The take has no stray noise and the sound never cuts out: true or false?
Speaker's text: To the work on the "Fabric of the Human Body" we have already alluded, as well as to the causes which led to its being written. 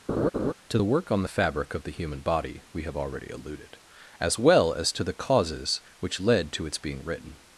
false